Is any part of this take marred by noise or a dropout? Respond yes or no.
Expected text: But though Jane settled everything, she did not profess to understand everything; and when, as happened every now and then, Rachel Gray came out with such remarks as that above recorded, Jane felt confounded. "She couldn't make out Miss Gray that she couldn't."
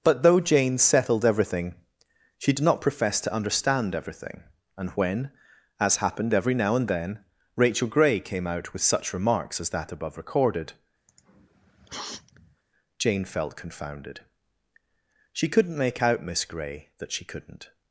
yes